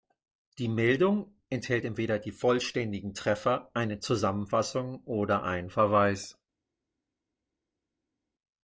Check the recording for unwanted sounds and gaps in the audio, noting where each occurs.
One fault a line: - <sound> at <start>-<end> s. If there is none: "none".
none